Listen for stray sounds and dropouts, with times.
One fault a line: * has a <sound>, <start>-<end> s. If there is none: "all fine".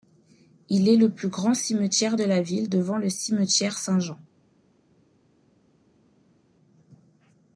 all fine